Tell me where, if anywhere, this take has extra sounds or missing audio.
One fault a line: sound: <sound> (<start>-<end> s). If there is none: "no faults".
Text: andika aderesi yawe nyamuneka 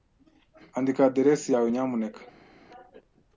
no faults